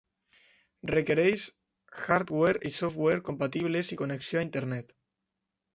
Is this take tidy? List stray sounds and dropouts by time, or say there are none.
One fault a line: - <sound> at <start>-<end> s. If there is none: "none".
none